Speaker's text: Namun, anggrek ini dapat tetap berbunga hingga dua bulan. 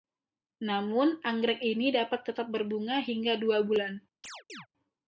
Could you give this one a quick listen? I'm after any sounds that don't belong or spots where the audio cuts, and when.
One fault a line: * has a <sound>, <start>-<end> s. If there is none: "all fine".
* has a chirp, 4.2-4.7 s